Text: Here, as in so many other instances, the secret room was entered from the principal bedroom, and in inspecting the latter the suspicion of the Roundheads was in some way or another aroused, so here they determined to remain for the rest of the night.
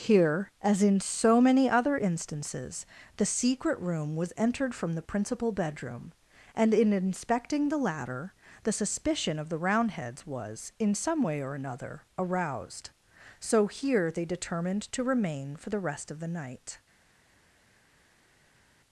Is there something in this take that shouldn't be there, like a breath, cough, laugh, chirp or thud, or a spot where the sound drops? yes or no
no